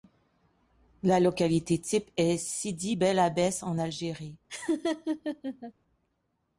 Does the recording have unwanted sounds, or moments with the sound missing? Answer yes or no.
yes